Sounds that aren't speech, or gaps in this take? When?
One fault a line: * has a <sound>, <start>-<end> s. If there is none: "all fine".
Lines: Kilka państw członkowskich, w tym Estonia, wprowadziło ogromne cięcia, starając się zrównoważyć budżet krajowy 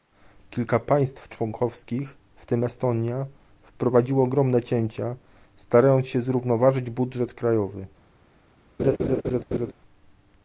* has a laugh, 8.8-9.7 s